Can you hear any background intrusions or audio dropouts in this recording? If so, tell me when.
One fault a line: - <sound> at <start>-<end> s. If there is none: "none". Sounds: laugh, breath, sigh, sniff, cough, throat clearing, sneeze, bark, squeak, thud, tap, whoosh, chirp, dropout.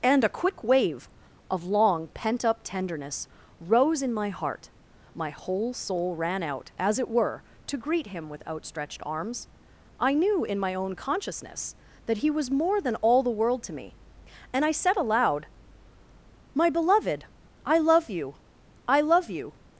none